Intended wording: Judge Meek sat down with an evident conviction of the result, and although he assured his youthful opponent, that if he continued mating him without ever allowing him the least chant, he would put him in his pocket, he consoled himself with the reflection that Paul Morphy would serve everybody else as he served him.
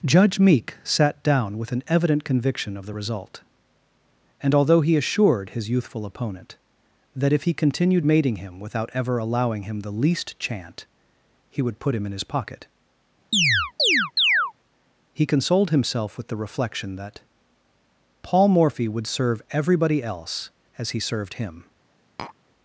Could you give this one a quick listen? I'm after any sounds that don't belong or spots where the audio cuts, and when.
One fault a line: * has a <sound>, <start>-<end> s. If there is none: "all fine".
* has a chirp, 13.3-14.5 s
* has a tap, 22.2-22.4 s